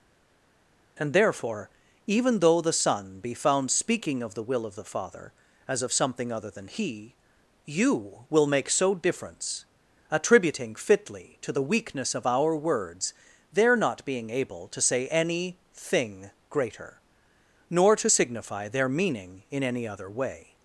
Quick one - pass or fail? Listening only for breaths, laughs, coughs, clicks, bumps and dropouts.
pass